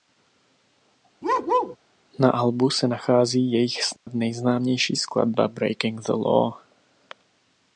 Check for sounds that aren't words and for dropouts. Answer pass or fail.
fail